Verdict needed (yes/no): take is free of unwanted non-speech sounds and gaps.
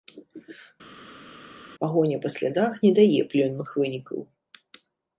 yes